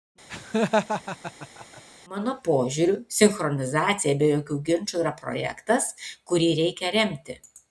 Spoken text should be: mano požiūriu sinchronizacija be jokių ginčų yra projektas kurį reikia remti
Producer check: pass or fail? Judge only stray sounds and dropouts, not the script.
fail